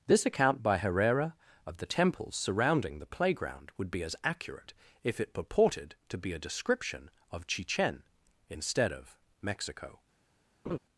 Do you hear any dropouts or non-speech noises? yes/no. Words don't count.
yes